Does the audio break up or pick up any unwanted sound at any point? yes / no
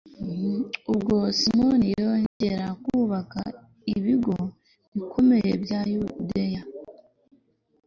yes